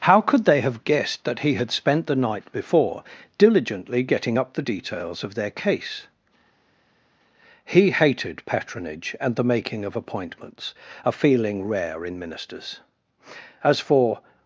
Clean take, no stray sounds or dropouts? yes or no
yes